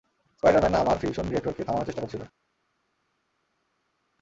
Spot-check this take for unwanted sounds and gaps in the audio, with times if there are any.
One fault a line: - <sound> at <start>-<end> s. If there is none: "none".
none